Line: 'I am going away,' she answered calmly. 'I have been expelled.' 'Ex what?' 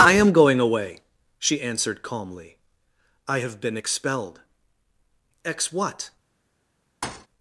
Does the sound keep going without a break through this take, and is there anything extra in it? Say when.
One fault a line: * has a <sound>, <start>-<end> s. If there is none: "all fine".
* has a thud, 7.0-7.3 s